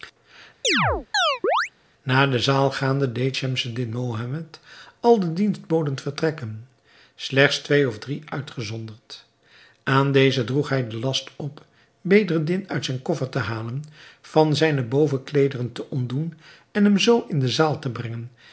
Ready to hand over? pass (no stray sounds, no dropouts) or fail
fail